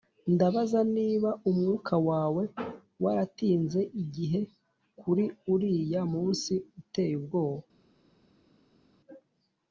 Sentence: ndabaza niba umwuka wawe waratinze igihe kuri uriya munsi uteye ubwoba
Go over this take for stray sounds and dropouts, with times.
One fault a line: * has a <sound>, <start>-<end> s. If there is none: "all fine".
all fine